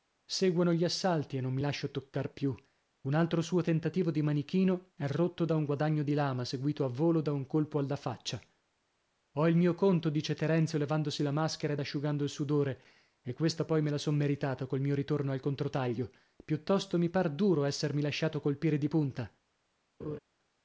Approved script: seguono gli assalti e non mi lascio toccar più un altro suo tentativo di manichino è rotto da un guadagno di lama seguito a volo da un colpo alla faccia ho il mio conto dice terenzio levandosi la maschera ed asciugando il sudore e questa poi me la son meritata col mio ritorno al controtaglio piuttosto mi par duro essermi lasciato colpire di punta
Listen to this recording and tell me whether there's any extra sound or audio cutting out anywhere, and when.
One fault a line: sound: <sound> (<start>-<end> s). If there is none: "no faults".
sound: laugh (20.0-20.2 s)